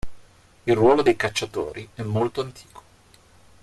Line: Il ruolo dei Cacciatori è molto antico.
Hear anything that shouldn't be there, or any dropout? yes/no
no